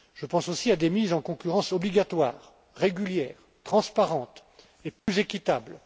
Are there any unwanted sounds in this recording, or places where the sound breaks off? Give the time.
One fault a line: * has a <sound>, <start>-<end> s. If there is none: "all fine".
* has a dropout, 5.0-5.1 s